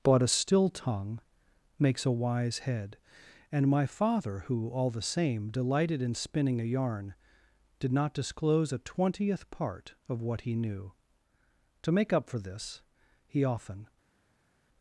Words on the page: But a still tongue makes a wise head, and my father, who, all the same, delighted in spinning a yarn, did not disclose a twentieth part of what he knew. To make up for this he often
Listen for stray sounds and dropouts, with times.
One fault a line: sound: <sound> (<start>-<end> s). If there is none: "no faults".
no faults